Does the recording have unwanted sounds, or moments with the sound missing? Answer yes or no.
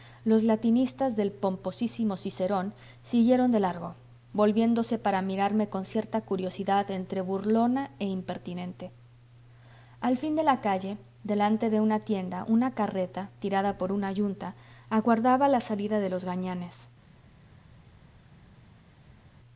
no